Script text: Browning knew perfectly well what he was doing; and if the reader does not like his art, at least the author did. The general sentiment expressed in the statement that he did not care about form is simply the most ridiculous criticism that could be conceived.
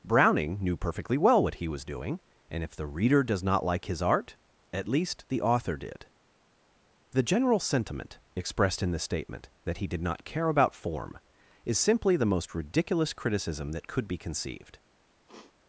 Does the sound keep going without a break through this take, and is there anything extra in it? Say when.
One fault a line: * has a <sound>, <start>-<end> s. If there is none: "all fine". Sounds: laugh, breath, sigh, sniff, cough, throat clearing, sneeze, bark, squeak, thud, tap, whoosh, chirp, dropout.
* has a sniff, 15.3-15.5 s